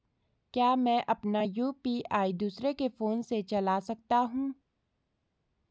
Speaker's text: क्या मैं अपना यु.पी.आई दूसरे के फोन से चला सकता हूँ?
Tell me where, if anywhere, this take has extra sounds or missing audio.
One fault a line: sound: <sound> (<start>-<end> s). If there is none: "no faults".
no faults